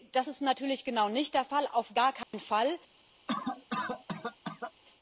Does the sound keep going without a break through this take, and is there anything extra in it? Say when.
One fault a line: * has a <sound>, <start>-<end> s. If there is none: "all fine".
* has a dropout, 2.2-2.3 s
* has a cough, 3.3-4.7 s